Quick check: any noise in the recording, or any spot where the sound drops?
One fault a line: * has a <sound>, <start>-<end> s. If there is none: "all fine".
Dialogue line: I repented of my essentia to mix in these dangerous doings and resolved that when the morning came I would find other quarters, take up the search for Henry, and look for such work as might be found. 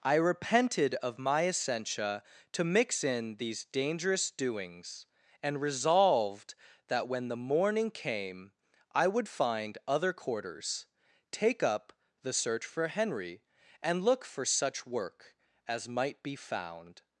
all fine